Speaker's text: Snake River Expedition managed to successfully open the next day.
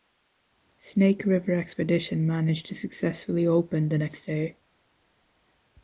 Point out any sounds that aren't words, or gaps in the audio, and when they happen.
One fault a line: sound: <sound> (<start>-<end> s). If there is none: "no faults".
no faults